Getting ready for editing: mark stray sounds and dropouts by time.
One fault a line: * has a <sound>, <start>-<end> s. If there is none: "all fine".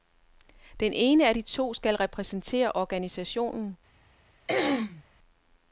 * has a throat clearing, 4.5-5.0 s